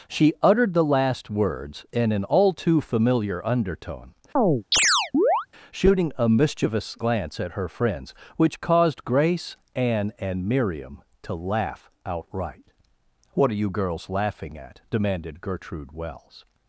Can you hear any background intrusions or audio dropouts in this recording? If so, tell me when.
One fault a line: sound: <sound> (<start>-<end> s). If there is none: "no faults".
sound: chirp (4.4-5.5 s)